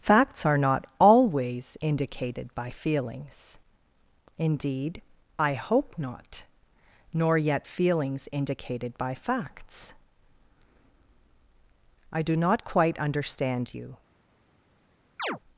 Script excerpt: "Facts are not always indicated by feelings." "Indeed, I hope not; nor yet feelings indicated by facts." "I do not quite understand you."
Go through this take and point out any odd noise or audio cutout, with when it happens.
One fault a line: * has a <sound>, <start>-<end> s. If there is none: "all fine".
* has a chirp, 15.2-15.4 s